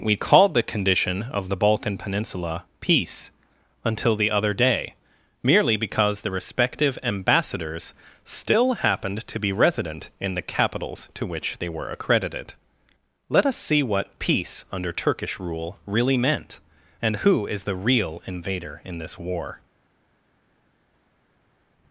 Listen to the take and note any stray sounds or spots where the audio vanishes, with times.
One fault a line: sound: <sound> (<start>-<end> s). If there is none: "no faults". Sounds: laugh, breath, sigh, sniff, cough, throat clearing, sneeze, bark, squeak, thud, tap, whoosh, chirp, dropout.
no faults